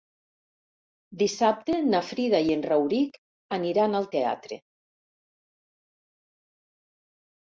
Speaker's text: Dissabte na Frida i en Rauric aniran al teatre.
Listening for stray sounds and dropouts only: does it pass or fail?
pass